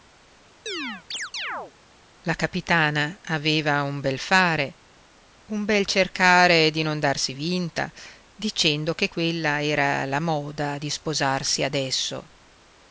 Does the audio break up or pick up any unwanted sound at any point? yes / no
yes